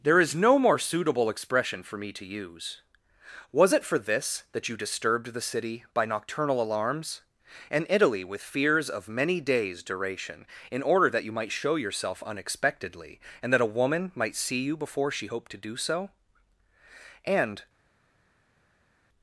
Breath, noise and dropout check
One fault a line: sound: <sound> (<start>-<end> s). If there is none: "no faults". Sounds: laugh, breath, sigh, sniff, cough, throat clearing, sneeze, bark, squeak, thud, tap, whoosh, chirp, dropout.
no faults